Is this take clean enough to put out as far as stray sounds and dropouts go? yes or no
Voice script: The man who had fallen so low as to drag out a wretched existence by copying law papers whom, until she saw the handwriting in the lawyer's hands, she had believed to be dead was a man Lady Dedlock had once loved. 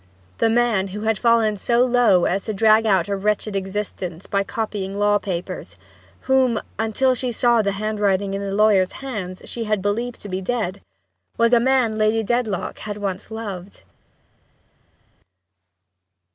yes